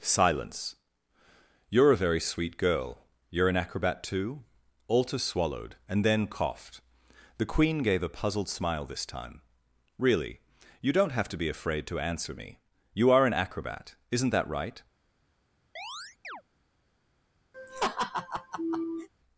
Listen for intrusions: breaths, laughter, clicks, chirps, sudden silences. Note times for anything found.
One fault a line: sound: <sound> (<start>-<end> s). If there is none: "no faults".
sound: chirp (15.8-16.4 s)
sound: laugh (17.5-19.1 s)